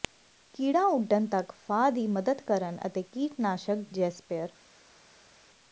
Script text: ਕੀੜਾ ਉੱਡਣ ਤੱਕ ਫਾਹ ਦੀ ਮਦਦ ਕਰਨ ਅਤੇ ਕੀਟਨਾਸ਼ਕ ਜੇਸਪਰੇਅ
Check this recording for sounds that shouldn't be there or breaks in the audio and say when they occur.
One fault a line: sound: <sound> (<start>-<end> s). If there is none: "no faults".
no faults